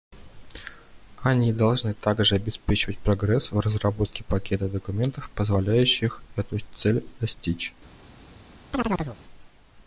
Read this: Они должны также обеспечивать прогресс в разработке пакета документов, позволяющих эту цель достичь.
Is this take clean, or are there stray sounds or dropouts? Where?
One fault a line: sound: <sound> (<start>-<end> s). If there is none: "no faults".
sound: chirp (8.7-9.2 s)